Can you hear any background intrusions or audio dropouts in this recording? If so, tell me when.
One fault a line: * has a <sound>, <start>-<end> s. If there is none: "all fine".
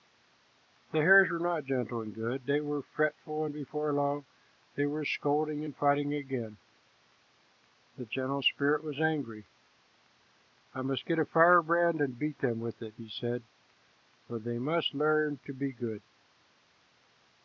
all fine